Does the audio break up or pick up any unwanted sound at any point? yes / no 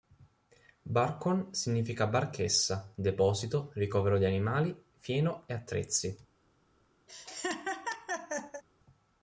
yes